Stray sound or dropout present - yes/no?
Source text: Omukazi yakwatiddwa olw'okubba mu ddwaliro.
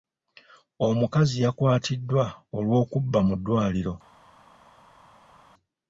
no